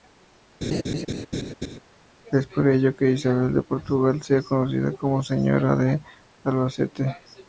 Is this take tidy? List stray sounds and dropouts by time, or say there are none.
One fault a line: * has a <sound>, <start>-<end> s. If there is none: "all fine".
* has a laugh, 0.6-1.8 s